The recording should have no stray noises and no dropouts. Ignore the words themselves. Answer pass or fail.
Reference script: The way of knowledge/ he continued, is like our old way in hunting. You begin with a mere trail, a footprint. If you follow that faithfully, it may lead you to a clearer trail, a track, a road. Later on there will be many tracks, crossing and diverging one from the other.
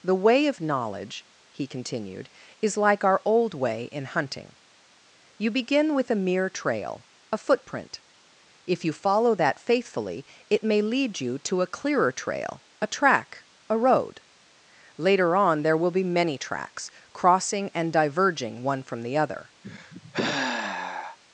fail